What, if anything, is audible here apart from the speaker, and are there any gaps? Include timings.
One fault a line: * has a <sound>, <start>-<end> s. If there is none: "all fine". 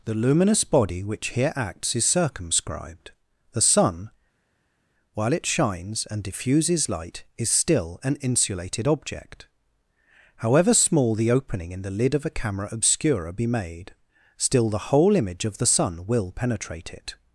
all fine